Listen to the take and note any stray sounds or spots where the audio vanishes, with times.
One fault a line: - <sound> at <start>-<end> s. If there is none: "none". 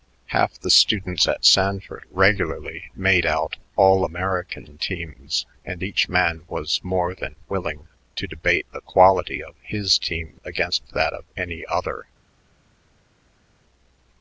none